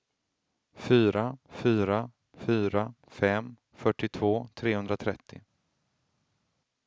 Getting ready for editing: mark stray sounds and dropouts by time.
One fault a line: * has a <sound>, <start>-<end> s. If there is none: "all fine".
all fine